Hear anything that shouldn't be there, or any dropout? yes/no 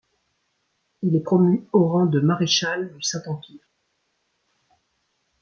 no